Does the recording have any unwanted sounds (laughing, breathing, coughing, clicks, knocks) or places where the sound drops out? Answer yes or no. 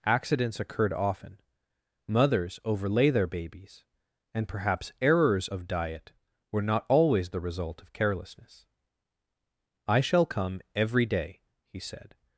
no